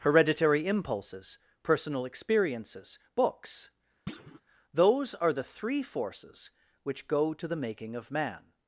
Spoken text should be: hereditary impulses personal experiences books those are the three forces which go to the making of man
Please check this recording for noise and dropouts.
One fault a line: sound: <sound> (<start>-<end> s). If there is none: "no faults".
sound: thud (4.1-4.4 s)